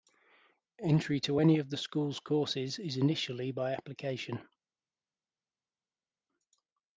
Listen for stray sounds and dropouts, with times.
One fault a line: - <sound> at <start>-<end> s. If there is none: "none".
none